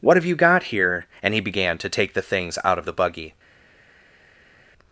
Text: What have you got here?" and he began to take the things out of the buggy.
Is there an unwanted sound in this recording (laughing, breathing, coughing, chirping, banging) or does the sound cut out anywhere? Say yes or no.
no